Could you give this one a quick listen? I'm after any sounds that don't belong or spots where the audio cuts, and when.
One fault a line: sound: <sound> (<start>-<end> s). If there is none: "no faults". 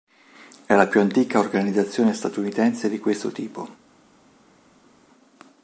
no faults